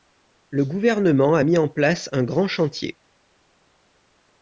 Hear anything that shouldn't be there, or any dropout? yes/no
no